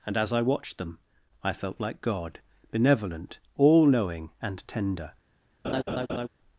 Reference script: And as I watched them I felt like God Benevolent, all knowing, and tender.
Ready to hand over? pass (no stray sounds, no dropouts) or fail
fail